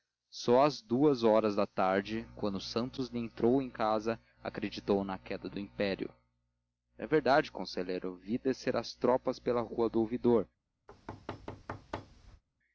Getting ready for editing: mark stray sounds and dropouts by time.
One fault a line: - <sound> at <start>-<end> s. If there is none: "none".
- thud at 10.9-12.4 s